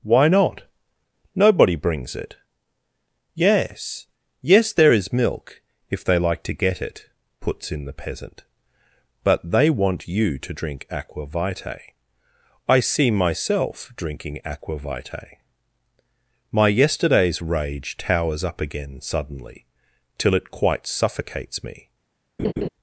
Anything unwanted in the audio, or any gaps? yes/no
yes